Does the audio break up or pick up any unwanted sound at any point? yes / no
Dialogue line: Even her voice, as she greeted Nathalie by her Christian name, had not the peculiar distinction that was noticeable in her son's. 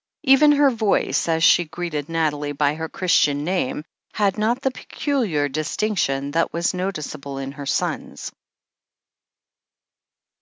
no